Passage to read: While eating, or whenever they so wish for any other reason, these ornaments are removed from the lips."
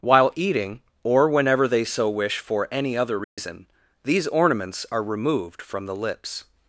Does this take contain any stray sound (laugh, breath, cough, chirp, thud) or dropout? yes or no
yes